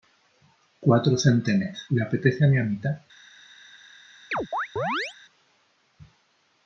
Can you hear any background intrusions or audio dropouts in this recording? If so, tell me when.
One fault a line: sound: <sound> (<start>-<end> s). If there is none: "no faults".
sound: chirp (4.3-5.2 s)